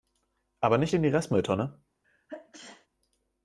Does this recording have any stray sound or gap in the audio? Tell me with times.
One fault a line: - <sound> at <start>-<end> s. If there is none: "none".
- sneeze at 2.0-2.9 s